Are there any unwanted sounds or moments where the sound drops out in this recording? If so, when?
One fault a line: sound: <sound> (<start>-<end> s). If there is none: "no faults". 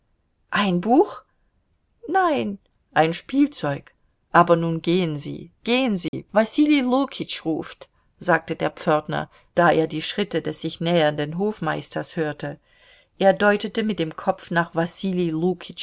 sound: dropout (6.1-6.1 s)